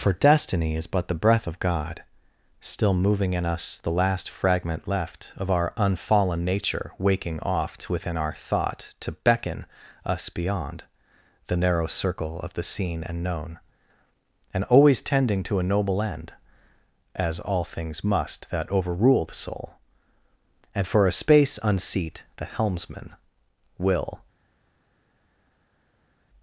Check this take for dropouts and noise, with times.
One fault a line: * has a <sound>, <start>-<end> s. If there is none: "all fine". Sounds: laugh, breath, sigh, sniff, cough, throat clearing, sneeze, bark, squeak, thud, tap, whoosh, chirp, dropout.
all fine